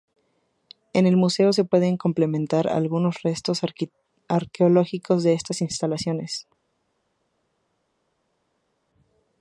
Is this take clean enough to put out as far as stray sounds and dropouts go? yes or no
yes